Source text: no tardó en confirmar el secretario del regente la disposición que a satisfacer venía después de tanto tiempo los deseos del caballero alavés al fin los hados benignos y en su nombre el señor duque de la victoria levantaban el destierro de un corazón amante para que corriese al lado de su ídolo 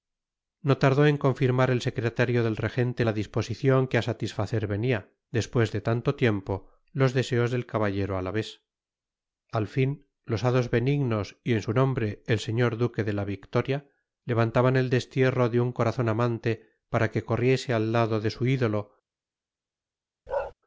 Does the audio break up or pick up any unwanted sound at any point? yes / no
yes